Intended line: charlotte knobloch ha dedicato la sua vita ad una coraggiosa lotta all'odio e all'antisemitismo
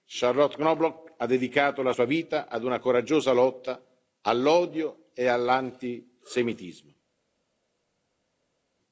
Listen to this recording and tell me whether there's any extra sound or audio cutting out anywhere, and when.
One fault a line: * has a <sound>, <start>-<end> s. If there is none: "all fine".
all fine